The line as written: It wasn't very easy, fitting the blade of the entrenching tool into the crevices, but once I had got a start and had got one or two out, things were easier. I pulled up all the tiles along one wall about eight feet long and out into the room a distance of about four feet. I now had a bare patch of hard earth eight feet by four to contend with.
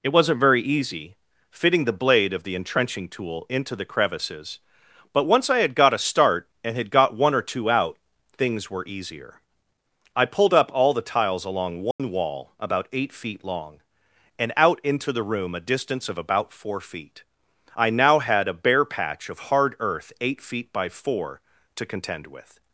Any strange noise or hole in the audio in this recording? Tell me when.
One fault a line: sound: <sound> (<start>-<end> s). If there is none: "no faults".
sound: dropout (11.9-12.0 s)